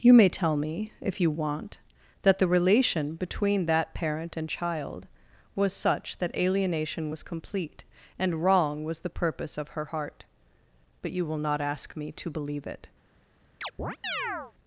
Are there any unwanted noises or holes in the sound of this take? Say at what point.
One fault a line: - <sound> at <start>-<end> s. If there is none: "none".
- chirp at 13.6-14.5 s